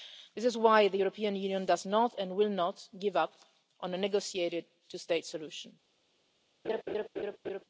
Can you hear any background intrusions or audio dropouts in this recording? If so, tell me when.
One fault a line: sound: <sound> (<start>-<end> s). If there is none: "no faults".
sound: laugh (6.6-7.6 s)